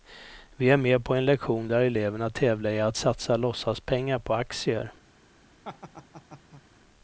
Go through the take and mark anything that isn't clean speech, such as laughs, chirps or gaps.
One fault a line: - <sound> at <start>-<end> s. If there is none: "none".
- laugh at 5.6-6.6 s